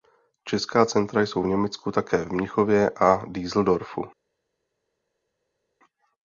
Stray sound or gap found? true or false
false